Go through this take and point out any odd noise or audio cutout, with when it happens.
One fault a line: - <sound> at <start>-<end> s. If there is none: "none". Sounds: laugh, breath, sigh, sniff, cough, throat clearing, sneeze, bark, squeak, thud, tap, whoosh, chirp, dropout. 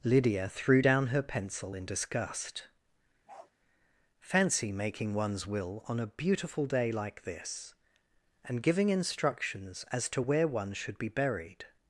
- bark at 3.3-3.5 s